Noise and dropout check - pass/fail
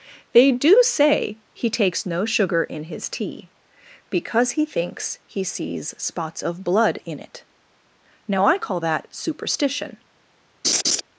fail